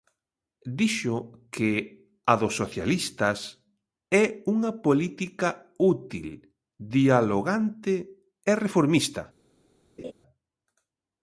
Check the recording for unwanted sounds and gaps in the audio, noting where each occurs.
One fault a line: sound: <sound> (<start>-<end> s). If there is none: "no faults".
sound: laugh (10.0-10.1 s)